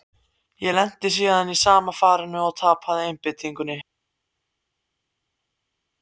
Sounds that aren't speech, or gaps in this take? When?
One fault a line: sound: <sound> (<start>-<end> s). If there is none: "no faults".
no faults